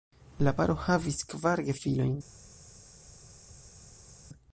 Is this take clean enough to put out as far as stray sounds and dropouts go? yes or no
yes